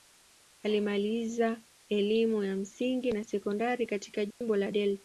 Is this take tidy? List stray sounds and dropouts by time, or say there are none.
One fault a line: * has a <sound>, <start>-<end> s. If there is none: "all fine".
* has a dropout, 4.3-4.4 s